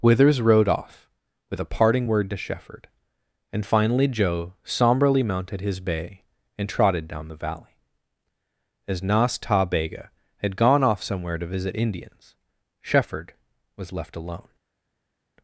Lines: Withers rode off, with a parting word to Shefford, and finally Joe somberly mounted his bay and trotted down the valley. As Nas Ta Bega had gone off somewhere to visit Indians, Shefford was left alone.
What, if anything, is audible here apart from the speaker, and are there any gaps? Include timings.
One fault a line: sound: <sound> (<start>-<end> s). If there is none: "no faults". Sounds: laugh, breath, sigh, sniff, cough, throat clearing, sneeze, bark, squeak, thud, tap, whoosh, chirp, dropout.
no faults